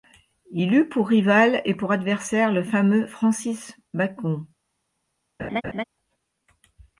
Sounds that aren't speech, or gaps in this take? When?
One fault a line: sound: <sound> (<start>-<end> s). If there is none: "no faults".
sound: laugh (5.4-5.8 s)